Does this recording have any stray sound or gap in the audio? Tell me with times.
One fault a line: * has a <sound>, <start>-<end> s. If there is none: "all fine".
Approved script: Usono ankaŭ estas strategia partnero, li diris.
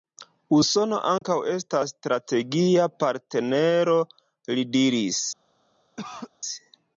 * has a dropout, 1.2-1.2 s
* has a cough, 6.0-6.3 s